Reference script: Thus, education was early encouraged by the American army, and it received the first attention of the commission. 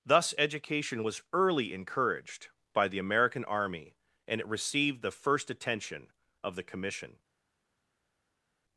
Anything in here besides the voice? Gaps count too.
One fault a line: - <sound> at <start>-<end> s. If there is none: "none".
none